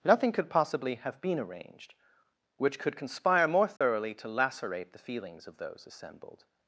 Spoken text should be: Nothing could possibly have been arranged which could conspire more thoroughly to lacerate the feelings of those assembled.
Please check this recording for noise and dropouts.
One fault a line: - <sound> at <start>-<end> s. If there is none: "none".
- dropout at 3.8-3.8 s